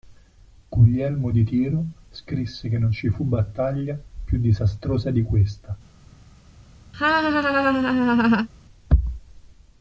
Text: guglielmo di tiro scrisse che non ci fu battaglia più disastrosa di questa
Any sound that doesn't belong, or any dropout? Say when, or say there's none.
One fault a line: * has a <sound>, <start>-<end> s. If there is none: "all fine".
* has a laugh, 6.9-8.5 s